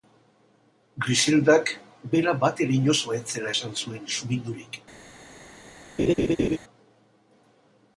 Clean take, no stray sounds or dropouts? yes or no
no